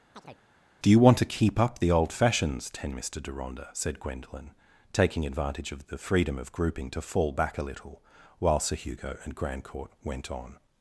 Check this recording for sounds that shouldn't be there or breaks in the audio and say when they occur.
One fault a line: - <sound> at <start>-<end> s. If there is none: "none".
- chirp at 0.1-0.4 s